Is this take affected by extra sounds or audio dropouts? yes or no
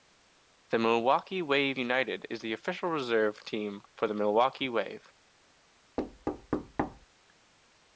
yes